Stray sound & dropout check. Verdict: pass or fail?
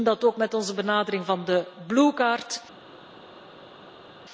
pass